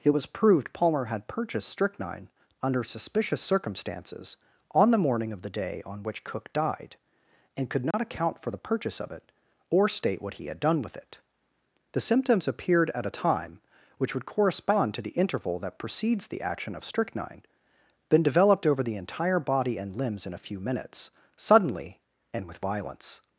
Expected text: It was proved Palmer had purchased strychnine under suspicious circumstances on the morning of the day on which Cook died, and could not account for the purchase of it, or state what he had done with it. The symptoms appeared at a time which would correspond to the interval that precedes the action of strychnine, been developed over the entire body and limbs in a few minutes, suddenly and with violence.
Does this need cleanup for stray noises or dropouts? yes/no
yes